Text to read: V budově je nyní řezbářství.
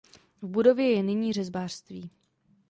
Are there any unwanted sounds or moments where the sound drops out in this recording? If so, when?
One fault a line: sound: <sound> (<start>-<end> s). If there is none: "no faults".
no faults